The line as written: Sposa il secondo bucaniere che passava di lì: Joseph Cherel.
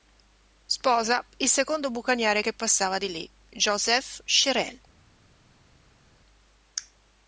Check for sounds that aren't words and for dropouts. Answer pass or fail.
pass